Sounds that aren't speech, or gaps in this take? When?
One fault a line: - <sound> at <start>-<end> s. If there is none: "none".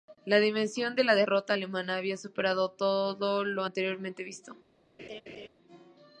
- laugh at 5.0-5.5 s